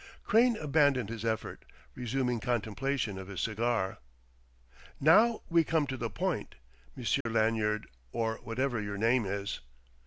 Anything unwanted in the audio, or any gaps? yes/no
yes